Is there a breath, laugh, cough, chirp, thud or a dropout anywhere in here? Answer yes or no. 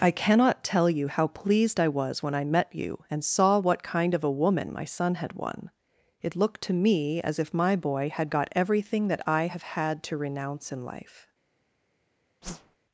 yes